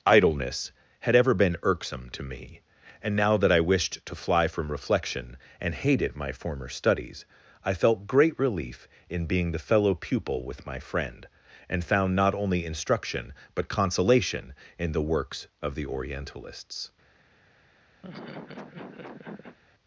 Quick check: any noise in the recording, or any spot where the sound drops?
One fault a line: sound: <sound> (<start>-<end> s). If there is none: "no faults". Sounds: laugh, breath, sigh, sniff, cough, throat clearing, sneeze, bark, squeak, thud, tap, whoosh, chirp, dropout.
sound: laugh (18.0-19.6 s)